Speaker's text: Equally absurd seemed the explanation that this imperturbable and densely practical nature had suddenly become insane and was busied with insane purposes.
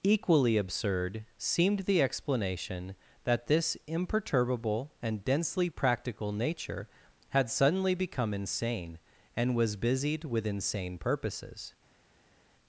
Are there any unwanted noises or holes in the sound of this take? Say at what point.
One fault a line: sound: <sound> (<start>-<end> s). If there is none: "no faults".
no faults